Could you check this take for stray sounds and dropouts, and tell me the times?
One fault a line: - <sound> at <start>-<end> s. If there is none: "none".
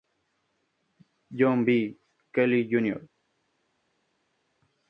none